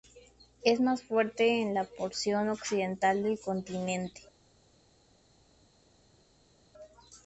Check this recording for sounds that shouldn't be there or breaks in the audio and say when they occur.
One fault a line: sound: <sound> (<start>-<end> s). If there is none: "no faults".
no faults